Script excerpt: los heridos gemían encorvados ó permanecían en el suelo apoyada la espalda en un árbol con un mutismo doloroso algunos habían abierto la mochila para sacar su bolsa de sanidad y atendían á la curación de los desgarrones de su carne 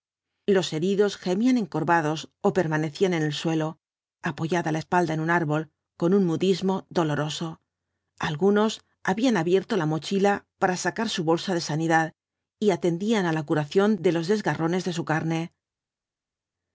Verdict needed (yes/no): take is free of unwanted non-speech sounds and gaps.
yes